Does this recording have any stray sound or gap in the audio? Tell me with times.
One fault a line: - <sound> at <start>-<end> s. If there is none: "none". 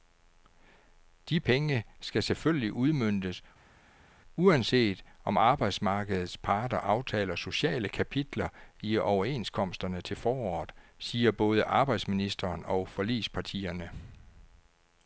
none